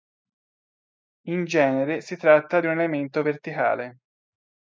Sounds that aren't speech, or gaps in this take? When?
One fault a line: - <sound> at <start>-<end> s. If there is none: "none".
none